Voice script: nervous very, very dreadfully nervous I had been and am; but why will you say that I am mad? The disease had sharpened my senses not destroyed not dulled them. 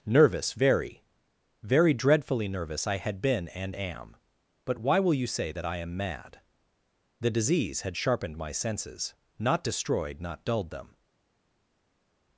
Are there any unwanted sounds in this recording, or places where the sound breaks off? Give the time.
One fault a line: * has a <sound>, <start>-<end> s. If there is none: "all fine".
all fine